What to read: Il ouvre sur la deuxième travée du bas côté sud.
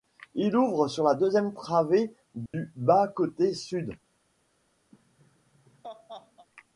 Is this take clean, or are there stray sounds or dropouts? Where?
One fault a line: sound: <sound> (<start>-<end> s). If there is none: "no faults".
sound: dropout (2.5-2.5 s)
sound: laugh (4.9-6.5 s)